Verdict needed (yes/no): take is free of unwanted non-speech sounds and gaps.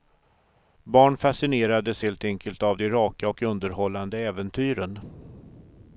yes